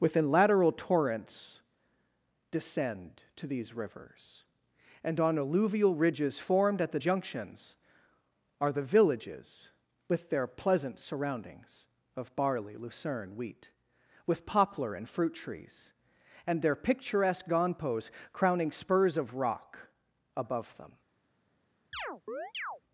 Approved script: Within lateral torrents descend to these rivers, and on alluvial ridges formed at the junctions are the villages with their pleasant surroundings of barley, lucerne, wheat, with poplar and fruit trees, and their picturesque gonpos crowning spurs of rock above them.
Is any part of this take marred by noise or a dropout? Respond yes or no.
yes